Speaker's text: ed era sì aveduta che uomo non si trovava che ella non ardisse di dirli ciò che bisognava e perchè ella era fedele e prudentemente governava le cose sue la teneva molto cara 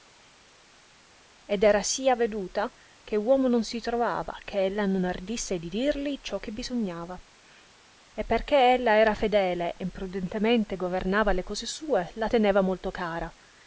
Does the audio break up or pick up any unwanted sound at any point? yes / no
no